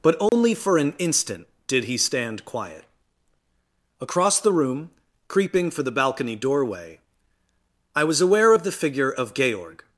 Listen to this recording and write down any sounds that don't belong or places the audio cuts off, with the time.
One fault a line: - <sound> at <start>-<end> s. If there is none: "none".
- dropout at 0.3-0.3 s